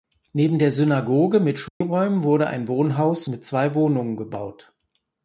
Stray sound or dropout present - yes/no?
yes